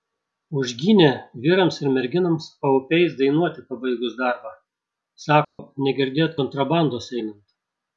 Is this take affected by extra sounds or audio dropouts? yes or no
yes